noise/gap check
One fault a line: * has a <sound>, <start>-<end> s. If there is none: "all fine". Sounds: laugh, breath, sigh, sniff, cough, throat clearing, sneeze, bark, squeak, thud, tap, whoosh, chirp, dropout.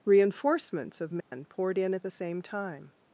* has a dropout, 1.2-1.3 s